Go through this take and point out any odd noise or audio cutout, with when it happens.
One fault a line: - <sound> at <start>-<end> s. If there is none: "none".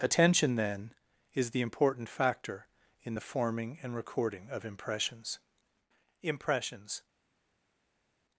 none